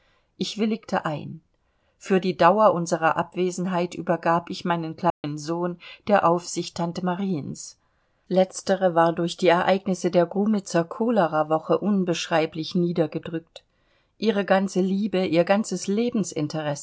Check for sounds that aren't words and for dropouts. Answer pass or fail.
fail